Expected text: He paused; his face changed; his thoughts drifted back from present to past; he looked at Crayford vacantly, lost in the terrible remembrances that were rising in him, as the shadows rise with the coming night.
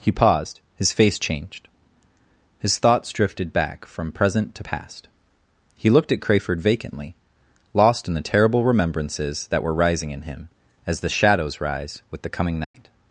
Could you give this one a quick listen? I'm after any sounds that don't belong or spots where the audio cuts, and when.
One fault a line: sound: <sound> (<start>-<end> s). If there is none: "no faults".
sound: dropout (12.6-12.7 s)